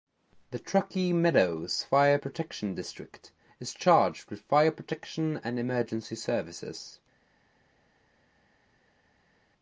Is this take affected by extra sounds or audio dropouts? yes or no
no